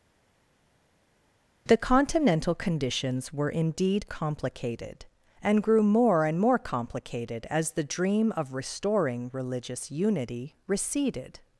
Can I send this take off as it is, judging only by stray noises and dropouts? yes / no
yes